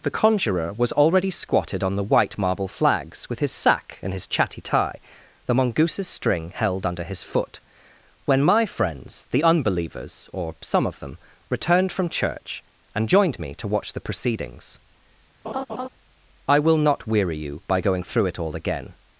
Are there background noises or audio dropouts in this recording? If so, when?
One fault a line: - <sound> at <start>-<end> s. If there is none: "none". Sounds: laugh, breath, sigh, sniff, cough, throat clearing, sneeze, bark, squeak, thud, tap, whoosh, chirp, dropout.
- laugh at 15.4-15.9 s